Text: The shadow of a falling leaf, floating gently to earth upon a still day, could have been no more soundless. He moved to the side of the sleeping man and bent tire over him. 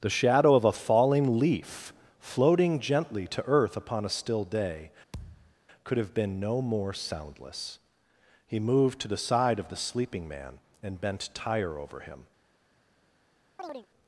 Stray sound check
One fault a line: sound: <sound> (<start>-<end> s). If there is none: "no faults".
sound: thud (5.1-5.5 s)
sound: chirp (13.6-13.9 s)